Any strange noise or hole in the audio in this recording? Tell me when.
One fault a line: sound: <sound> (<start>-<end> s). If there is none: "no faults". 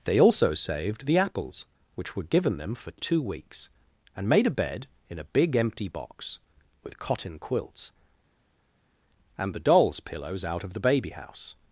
no faults